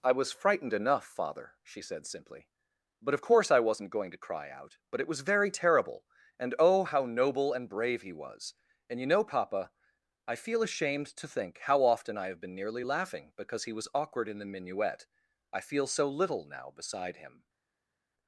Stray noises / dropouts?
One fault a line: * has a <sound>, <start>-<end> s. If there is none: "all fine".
all fine